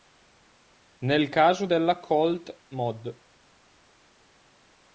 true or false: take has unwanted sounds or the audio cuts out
false